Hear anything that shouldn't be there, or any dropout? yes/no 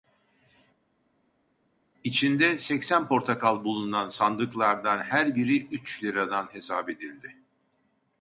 no